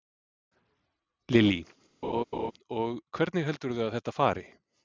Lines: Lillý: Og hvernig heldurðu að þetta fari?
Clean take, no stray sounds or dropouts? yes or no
no